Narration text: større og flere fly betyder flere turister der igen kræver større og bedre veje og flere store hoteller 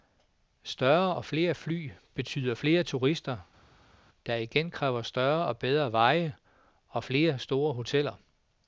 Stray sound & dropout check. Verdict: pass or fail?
pass